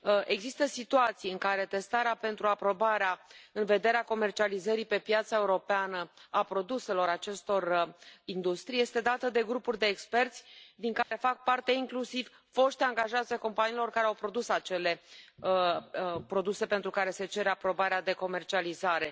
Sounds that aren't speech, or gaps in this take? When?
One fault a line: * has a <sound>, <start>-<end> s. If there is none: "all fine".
* has a dropout, 11.0-11.1 s